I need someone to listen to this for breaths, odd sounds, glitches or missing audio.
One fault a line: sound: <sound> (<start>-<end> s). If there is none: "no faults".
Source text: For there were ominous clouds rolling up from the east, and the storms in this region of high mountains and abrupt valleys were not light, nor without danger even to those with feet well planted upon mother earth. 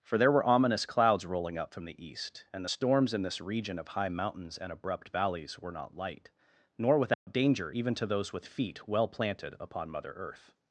sound: dropout (7.1-7.3 s)